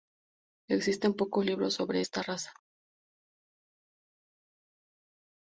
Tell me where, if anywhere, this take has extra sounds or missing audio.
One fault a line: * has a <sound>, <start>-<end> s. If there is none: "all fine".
all fine